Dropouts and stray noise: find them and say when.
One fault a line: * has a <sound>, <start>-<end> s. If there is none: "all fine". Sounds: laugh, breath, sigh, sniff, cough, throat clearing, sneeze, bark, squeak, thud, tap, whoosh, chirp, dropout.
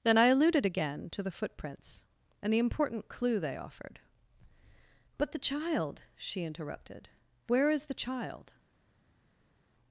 all fine